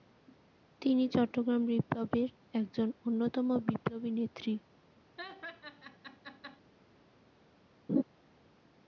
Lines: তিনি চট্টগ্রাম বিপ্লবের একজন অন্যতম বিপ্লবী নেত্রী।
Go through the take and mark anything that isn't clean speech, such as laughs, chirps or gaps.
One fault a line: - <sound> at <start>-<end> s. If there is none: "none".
- laugh at 5.2-6.6 s
- laugh at 7.9-8.0 s